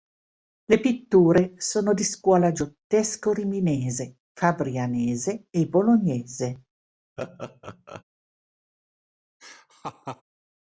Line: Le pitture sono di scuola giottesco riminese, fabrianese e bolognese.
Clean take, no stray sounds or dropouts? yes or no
no